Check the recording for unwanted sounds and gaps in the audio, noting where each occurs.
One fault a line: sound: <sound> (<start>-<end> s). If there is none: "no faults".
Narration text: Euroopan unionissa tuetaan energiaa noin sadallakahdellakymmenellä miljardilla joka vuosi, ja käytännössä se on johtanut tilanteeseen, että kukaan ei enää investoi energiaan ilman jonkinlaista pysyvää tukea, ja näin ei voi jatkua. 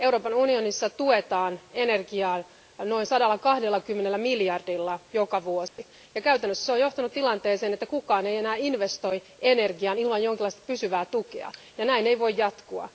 sound: dropout (5.7-5.8 s)